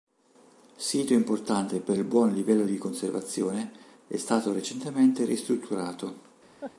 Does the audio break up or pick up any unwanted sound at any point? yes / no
yes